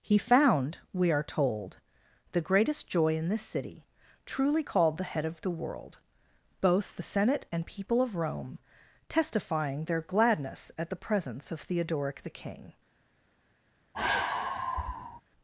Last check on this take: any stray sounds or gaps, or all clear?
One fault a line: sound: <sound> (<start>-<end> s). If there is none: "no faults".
sound: sigh (13.9-15.2 s)